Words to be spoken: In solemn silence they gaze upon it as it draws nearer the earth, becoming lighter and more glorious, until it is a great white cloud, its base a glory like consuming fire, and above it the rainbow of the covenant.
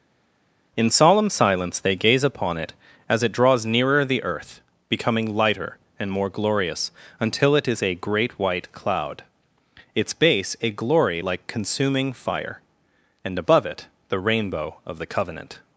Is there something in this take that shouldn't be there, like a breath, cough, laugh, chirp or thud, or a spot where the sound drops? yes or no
no